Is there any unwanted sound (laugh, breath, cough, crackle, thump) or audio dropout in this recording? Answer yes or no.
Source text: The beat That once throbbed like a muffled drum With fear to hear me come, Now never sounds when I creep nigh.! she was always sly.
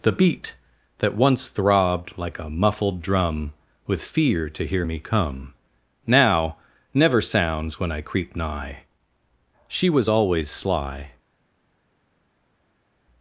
no